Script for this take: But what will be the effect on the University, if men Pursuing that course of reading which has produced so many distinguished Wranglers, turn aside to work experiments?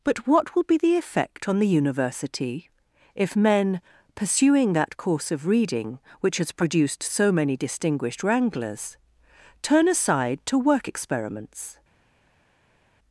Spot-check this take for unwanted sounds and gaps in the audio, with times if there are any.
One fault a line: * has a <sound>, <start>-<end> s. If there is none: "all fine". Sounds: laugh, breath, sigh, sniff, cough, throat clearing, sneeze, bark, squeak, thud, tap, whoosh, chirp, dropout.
all fine